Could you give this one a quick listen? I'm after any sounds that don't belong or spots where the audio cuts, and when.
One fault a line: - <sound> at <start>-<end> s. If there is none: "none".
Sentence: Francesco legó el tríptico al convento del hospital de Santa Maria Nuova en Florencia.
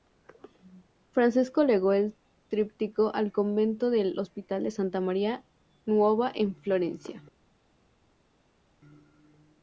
none